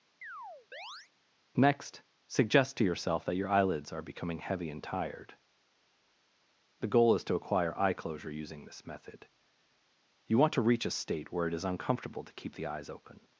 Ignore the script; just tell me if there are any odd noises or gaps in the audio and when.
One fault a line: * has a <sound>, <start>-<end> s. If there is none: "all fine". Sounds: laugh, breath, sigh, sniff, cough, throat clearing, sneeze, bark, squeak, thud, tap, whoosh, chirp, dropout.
* has a chirp, 0.2-1.1 s